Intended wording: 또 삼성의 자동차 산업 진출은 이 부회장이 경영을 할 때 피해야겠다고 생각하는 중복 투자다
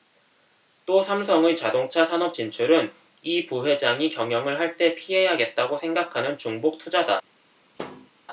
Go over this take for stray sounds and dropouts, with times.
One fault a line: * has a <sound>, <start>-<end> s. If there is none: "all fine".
* has a thud, 7.8-8.1 s